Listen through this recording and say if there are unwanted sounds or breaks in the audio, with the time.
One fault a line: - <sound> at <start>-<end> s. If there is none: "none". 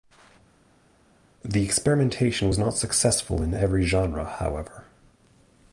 none